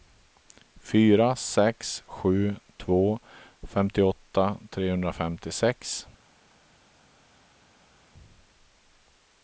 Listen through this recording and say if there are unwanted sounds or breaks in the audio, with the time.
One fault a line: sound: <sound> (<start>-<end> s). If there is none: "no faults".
no faults